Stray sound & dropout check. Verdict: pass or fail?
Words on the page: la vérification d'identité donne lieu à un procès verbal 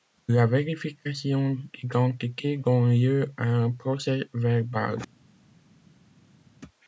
pass